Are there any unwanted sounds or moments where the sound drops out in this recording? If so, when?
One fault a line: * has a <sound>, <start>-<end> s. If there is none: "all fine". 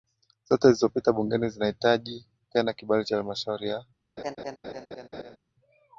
* has a laugh, 4.2-5.4 s